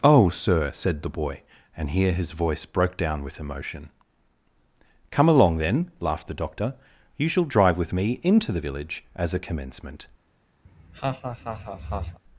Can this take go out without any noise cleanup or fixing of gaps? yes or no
no